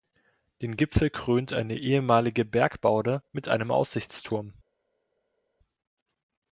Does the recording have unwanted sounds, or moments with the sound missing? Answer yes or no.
no